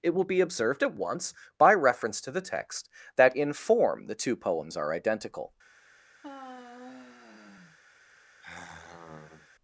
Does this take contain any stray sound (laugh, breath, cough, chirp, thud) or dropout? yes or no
yes